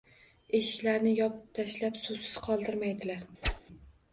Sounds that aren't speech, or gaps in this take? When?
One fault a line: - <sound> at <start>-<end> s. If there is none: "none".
- whoosh at 3.4-3.6 s